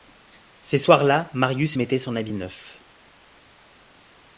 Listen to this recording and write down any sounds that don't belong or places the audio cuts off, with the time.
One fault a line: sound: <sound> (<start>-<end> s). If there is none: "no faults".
no faults